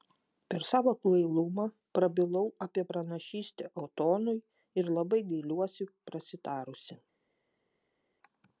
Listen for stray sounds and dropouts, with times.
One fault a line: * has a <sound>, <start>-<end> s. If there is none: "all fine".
all fine